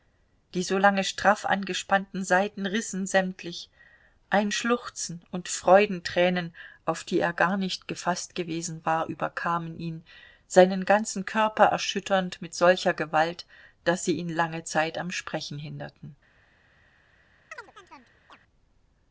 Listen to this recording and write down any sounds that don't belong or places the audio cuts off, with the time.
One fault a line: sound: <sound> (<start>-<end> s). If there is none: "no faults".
sound: chirp (17.5-18.4 s)